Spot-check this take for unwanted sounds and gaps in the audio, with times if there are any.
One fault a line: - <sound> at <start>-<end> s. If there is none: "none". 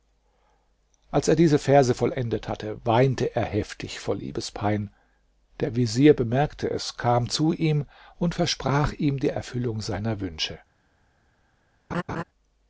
- laugh at 11.9-12.2 s